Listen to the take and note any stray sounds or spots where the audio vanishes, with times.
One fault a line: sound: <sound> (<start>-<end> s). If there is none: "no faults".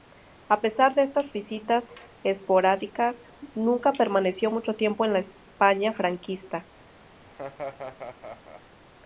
sound: laugh (7.2-8.6 s)